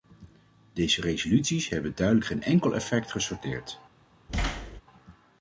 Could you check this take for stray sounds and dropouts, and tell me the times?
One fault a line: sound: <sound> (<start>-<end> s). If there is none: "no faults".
sound: thud (4.3-4.8 s)